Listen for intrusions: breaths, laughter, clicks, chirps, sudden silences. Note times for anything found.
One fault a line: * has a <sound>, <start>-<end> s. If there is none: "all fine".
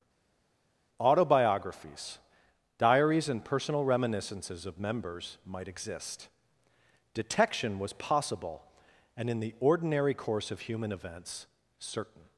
all fine